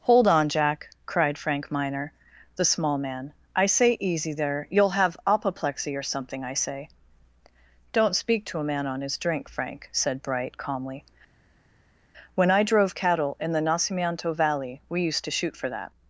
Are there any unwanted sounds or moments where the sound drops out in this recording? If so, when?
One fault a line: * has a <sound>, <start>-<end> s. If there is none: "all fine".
all fine